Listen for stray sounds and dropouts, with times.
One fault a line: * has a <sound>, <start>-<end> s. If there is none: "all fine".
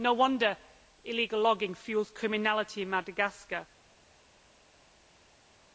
all fine